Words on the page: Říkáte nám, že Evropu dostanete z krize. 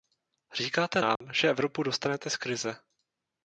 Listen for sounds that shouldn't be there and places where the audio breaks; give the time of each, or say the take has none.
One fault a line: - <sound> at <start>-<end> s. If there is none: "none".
- dropout at 1.2-1.2 s